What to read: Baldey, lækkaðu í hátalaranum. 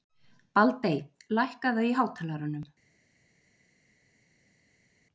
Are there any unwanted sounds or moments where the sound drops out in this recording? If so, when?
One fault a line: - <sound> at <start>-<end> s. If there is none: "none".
none